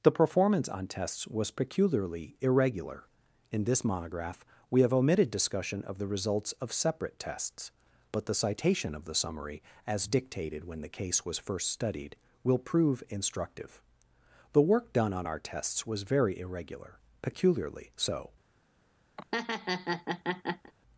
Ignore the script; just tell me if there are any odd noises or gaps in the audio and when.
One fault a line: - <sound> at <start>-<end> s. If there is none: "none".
- laugh at 19.2-20.7 s